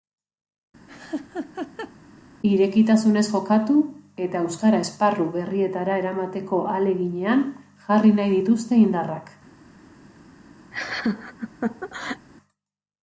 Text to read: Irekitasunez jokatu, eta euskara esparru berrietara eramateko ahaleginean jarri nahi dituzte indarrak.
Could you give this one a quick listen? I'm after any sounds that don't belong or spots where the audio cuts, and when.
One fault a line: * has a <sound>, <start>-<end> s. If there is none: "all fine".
* has a laugh, 0.9-2.0 s
* has a laugh, 10.7-12.3 s